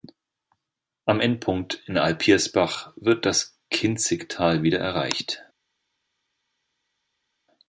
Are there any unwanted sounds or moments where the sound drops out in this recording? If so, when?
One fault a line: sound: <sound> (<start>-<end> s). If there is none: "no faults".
no faults